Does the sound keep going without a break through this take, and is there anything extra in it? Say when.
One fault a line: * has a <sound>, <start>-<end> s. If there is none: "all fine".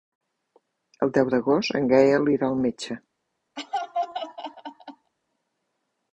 * has a laugh, 3.6-5.1 s